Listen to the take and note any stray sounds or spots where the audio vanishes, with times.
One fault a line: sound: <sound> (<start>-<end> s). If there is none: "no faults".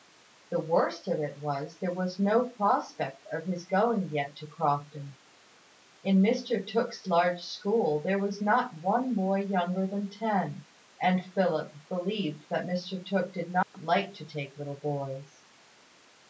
sound: dropout (13.6-13.7 s)